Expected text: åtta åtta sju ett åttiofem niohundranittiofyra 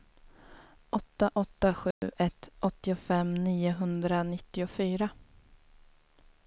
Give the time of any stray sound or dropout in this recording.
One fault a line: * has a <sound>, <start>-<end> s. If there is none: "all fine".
* has a dropout, 1.9-2.0 s